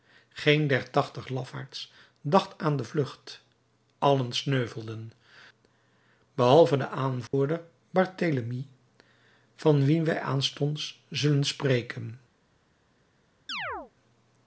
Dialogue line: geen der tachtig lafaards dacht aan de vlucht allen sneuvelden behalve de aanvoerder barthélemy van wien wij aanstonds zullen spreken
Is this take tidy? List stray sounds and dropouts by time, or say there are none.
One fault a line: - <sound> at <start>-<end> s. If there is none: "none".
- dropout at 7.3-7.3 s
- chirp at 13.5-13.9 s